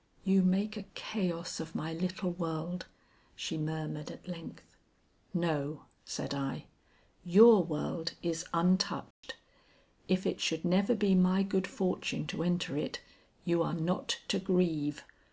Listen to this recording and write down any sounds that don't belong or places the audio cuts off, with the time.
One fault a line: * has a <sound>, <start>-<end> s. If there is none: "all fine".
* has a dropout, 9.1-9.2 s